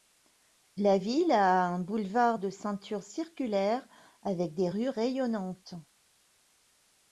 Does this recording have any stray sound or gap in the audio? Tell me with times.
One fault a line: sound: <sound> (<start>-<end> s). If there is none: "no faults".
no faults